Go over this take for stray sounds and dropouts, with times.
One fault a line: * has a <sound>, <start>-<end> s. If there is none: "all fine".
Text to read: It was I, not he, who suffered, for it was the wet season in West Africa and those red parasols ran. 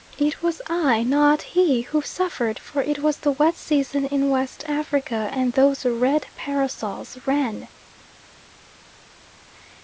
all fine